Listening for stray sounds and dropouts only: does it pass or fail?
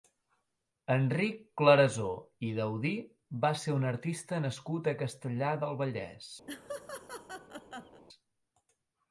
fail